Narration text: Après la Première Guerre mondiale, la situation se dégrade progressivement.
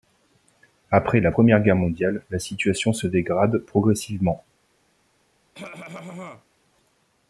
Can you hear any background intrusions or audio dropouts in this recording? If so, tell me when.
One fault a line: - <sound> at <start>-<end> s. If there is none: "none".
- cough at 5.5-6.4 s